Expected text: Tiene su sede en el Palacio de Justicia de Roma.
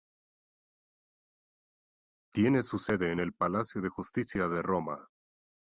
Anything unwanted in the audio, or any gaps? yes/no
no